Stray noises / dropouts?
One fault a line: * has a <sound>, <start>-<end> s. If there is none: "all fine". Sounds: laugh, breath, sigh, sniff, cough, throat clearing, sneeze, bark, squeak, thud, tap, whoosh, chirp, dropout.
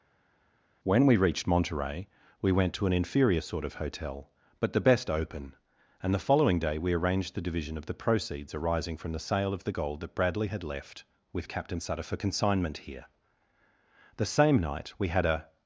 all fine